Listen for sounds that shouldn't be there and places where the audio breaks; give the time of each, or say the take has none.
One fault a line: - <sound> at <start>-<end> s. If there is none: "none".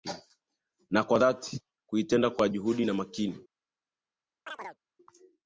- chirp at 4.5-4.8 s